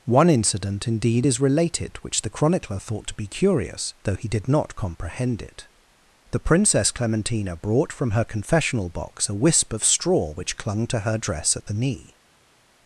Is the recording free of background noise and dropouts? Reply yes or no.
yes